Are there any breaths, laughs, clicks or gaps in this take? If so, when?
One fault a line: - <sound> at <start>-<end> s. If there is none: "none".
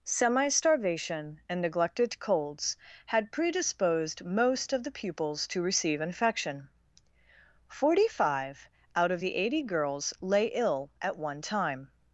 none